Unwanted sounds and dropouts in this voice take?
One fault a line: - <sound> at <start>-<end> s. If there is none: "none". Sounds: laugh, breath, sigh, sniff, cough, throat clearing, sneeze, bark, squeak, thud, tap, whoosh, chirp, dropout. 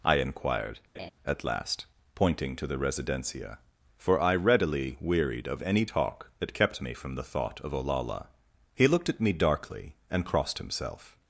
- laugh at 0.9-1.1 s